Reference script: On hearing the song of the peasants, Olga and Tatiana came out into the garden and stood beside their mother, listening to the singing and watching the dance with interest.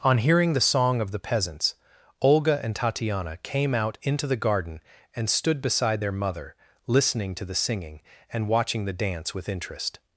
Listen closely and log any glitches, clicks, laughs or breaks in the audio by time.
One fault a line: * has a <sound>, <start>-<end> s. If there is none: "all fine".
all fine